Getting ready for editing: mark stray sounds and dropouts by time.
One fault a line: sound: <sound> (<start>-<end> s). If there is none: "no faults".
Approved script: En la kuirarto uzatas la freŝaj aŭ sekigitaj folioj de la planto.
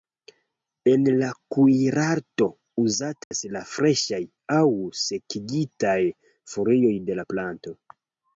sound: dropout (3.2-3.3 s)